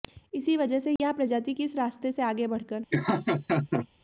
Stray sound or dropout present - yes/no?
yes